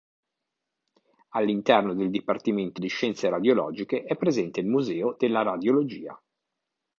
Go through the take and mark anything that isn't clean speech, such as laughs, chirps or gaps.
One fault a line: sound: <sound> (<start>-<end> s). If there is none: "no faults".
no faults